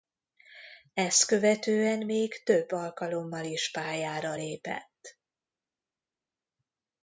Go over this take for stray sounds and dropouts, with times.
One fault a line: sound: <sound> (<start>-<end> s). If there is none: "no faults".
no faults